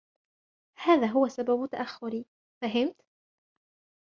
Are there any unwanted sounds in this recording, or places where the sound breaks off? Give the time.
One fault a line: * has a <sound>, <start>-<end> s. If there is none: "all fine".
all fine